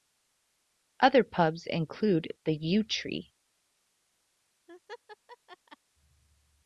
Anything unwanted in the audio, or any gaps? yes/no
yes